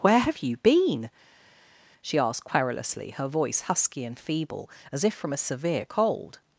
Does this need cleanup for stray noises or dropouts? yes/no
no